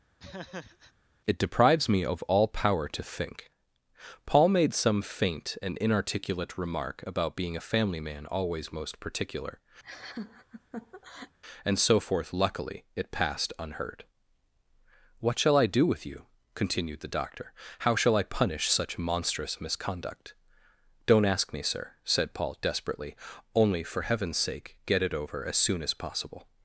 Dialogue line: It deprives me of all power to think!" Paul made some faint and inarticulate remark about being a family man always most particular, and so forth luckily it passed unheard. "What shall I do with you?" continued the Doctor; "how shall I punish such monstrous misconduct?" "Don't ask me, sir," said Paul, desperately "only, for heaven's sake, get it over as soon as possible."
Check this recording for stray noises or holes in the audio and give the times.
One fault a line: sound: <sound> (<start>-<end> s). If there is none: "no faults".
sound: laugh (0.2-0.9 s)
sound: laugh (9.8-11.4 s)